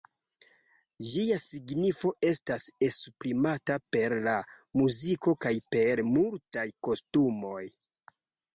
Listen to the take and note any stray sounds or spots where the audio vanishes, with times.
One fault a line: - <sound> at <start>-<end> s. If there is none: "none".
none